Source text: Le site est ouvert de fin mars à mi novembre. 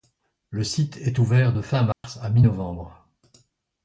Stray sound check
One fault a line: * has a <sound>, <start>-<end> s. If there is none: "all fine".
* has a dropout, 1.9-2.0 s